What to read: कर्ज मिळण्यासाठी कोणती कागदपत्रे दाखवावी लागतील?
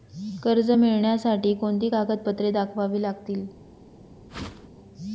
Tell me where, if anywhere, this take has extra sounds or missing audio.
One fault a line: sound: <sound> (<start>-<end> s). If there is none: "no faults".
sound: whoosh (4.3-4.7 s)